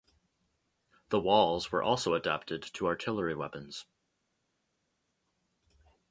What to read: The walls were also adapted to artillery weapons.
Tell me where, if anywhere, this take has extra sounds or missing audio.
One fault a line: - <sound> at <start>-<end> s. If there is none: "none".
none